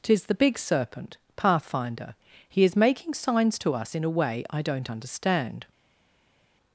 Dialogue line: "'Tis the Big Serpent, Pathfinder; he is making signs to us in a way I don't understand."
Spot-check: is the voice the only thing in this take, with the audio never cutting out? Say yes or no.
yes